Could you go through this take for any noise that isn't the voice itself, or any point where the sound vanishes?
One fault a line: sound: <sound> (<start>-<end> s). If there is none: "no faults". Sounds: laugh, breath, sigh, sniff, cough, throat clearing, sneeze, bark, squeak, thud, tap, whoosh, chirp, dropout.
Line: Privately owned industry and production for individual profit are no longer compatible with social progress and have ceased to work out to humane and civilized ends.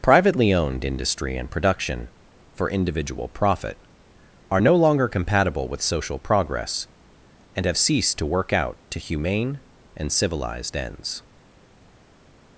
no faults